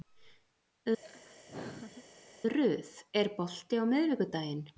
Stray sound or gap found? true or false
true